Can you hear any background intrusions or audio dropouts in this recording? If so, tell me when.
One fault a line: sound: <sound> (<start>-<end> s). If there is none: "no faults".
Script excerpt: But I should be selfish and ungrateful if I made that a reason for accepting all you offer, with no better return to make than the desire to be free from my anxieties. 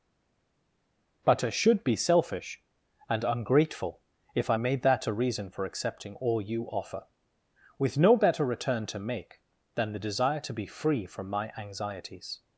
no faults